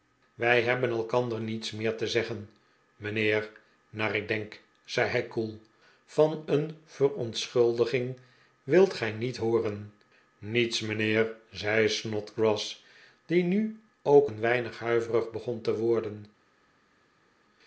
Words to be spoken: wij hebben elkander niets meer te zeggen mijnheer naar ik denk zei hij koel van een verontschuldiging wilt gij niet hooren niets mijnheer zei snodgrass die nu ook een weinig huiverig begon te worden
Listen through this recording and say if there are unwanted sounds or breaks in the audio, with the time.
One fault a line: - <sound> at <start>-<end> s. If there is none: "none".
none